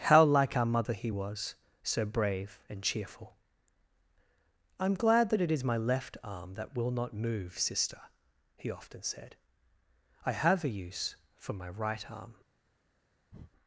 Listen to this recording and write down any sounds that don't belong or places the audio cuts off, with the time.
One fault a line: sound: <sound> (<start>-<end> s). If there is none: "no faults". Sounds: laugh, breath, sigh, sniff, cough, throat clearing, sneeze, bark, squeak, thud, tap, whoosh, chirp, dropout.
sound: breath (13.3-13.5 s)